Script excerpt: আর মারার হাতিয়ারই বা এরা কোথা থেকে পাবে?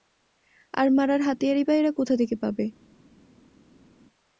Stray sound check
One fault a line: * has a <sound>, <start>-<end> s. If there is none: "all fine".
all fine